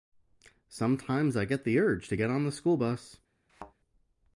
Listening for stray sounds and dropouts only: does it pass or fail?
fail